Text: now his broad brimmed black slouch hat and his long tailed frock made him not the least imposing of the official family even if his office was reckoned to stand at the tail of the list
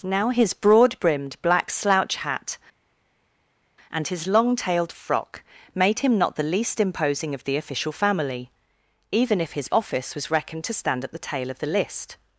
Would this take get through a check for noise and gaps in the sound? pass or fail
pass